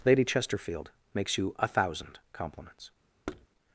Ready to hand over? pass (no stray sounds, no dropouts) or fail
fail